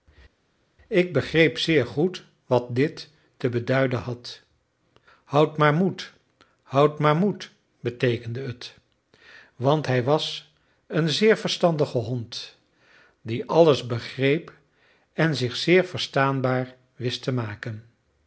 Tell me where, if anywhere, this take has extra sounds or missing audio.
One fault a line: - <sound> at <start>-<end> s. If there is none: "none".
none